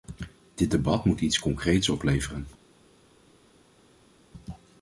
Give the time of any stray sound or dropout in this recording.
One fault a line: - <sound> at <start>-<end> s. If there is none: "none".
none